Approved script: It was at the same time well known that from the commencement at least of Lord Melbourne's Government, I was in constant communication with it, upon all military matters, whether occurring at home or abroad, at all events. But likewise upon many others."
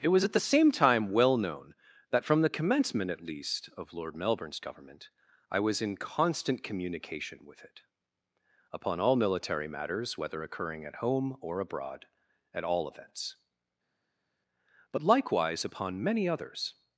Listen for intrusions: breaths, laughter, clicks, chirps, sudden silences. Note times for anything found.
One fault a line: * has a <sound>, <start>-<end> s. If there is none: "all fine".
all fine